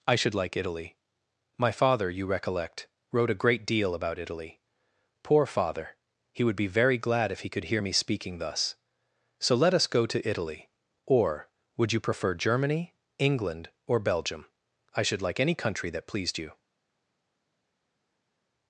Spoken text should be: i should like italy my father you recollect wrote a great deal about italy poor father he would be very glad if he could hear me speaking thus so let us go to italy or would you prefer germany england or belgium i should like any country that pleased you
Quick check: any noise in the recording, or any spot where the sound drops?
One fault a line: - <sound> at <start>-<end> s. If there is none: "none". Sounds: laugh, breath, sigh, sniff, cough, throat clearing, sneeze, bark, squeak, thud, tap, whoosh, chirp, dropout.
none